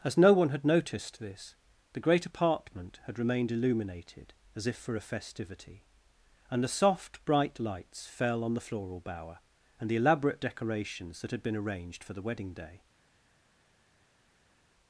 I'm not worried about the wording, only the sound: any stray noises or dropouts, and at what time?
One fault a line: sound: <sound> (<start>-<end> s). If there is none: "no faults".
no faults